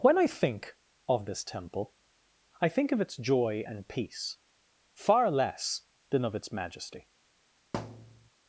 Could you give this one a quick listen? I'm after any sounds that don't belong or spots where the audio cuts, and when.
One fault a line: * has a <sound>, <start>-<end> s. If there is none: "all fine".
* has a thud, 7.7-8.3 s